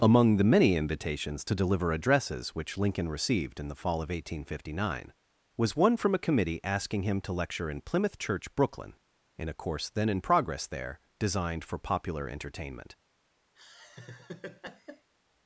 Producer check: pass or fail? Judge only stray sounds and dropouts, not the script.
fail